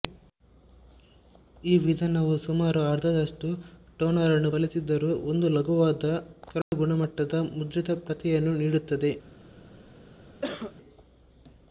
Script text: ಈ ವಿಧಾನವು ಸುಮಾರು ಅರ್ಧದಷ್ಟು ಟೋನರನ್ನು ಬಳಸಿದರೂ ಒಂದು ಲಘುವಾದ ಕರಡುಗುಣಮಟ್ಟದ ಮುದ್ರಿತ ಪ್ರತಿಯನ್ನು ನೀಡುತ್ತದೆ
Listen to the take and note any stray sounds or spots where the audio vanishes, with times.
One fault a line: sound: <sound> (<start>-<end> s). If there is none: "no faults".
sound: dropout (6.6-6.7 s)
sound: cough (10.4-10.7 s)